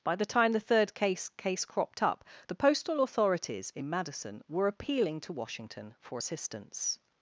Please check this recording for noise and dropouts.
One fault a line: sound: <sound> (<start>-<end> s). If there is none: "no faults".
no faults